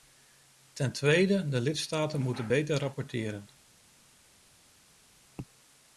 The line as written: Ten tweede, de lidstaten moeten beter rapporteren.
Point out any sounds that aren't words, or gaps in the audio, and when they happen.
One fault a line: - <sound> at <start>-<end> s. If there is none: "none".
none